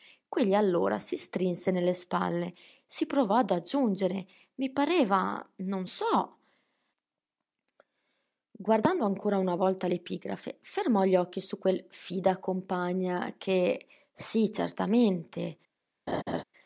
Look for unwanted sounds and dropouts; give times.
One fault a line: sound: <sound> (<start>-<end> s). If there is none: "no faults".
sound: laugh (16.1-16.4 s)